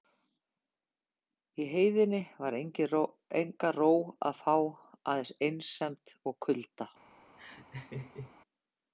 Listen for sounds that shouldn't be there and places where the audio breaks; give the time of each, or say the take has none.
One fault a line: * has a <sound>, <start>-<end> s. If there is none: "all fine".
* has a laugh, 7.4-8.4 s